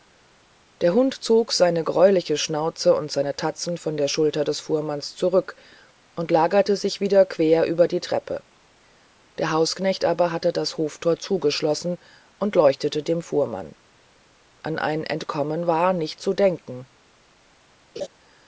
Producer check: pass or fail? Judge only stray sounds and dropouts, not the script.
fail